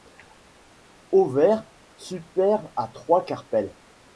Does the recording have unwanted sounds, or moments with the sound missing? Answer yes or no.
no